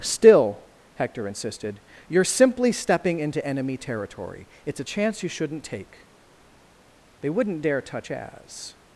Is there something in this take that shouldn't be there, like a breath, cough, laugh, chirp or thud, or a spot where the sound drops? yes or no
no